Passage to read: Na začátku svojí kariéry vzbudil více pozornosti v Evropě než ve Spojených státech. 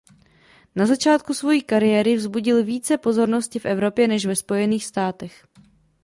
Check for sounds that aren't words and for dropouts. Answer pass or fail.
pass